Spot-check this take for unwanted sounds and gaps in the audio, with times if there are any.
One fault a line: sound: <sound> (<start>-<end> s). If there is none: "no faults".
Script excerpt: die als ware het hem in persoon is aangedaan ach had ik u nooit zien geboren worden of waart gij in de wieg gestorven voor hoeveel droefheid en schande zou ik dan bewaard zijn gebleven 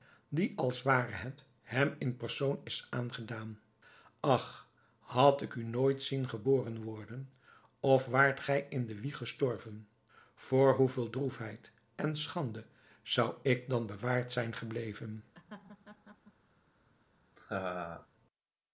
sound: laugh (15.3-16.3 s)
sound: laugh (17.4-18.1 s)